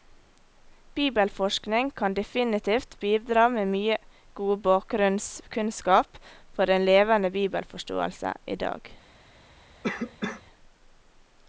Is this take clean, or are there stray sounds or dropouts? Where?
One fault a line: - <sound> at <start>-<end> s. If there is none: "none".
- cough at 9.8-10.4 s